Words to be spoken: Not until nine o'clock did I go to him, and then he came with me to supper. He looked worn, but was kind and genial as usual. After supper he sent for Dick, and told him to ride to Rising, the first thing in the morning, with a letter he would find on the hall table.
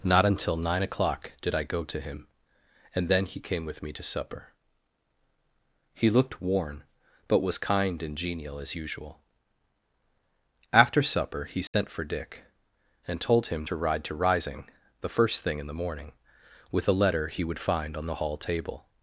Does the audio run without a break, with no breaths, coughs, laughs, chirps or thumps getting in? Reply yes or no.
no